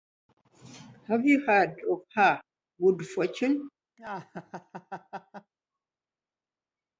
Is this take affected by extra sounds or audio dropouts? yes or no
yes